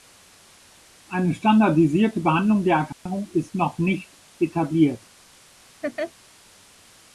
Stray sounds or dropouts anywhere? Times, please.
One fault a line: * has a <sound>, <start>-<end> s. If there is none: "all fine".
* has a dropout, 2.9-3.1 s
* has a laugh, 5.8-6.1 s